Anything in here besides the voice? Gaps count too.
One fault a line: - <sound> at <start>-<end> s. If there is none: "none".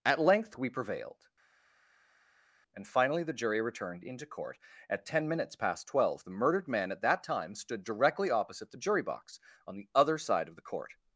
none